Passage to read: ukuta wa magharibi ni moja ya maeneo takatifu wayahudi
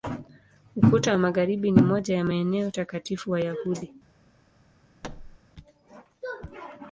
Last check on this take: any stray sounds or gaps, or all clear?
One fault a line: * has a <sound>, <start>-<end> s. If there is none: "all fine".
* has a thud, 5.0-5.4 s